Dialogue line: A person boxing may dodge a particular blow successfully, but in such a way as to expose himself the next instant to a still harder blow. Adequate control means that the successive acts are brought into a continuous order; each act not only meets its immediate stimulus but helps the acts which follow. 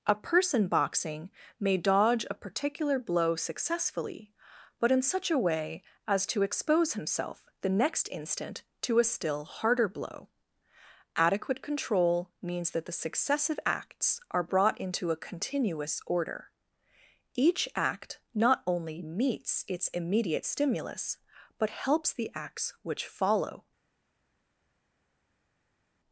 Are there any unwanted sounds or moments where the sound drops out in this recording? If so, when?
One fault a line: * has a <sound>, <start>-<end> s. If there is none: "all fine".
all fine